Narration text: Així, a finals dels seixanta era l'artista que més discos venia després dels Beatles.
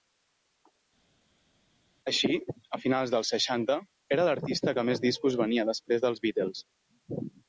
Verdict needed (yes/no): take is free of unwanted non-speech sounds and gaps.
yes